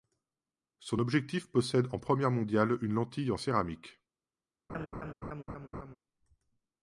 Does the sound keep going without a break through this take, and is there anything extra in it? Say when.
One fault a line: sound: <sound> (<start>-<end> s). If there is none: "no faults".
sound: laugh (4.7-6.0 s)